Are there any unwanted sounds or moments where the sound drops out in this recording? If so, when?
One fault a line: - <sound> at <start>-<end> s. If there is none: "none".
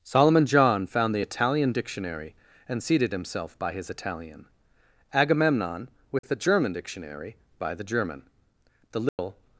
- dropout at 6.2-6.2 s
- dropout at 9.1-9.2 s